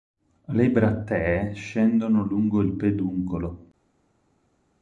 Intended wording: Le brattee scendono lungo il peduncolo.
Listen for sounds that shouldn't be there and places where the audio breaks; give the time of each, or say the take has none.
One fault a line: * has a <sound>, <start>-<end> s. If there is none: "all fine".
all fine